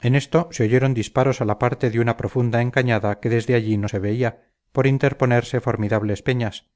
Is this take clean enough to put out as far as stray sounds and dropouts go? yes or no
yes